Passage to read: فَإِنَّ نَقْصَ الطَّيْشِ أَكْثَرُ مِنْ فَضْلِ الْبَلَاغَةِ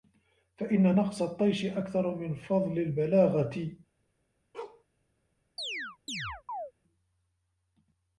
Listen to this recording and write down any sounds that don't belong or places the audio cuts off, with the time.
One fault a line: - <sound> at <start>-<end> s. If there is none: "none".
- bark at 4.5-4.8 s
- chirp at 5.6-6.7 s